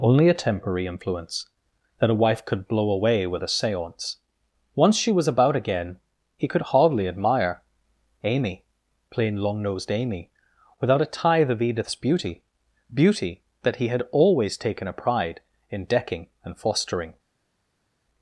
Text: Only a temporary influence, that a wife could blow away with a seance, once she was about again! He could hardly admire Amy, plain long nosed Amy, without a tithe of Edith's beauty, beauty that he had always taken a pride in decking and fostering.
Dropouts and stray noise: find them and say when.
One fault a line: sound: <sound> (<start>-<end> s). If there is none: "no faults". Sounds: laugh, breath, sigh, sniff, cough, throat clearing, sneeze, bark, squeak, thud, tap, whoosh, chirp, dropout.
no faults